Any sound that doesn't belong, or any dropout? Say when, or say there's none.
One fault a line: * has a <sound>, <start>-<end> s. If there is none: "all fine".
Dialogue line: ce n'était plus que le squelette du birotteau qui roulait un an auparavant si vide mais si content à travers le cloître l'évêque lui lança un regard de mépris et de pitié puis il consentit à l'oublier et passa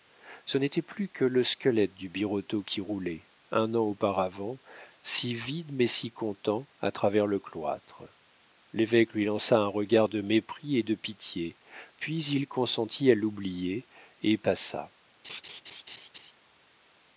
* has a laugh, 15.2-16.3 s